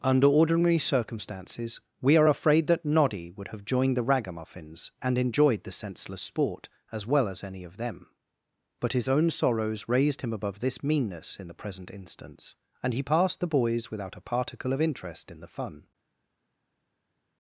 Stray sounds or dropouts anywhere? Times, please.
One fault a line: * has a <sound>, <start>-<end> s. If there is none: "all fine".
all fine